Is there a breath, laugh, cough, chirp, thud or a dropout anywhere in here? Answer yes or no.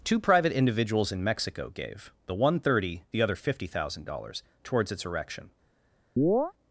yes